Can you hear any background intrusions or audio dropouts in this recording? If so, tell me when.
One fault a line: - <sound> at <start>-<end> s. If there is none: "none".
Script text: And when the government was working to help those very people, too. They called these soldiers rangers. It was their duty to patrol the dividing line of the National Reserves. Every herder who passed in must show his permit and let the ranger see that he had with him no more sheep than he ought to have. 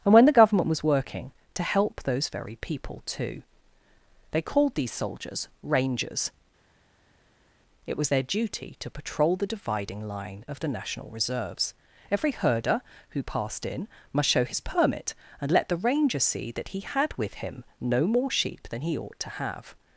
none